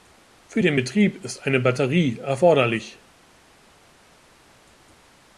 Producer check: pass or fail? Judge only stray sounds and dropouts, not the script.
pass